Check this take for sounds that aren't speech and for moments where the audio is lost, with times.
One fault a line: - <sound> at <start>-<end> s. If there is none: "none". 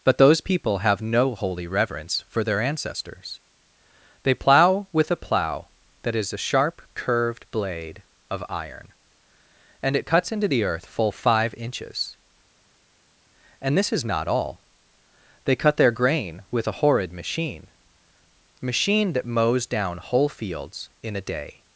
none